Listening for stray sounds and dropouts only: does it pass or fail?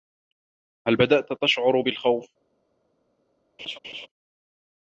fail